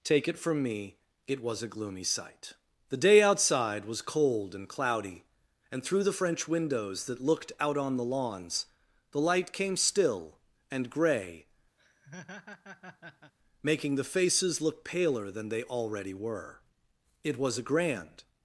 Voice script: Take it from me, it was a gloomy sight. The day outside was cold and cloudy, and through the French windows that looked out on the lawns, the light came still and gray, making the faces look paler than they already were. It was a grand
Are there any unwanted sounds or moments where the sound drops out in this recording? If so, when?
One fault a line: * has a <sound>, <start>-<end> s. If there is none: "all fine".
* has a laugh, 11.8-13.3 s